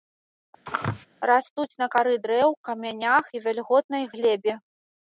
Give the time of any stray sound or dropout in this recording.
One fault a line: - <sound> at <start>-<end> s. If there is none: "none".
- sneeze at 0.7-1.1 s